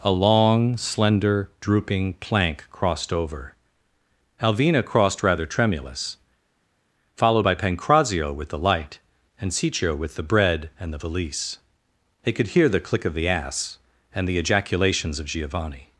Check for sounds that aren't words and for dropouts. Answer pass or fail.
pass